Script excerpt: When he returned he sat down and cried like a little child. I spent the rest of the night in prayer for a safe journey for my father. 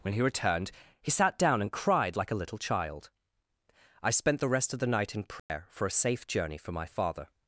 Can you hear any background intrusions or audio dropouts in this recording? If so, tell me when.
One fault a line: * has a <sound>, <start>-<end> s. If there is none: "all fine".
* has a dropout, 5.4-5.5 s